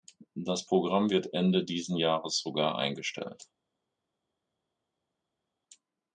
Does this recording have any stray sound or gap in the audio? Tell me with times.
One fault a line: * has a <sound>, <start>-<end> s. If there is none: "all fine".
all fine